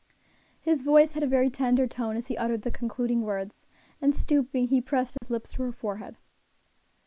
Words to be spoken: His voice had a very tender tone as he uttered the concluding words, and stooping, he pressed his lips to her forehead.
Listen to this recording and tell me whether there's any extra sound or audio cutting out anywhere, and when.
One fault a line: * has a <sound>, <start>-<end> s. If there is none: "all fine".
* has a dropout, 5.2-5.2 s